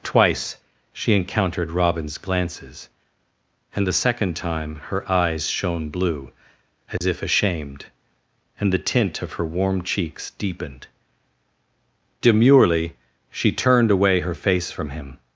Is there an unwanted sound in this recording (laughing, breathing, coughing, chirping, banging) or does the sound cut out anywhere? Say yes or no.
yes